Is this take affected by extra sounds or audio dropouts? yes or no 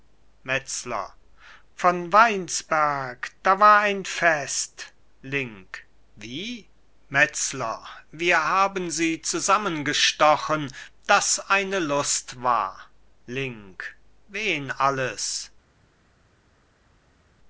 no